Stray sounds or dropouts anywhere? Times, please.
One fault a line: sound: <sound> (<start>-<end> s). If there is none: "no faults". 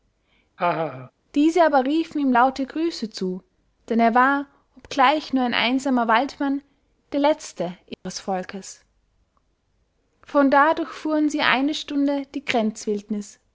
sound: laugh (0.6-1.1 s)
sound: dropout (7.9-8.1 s)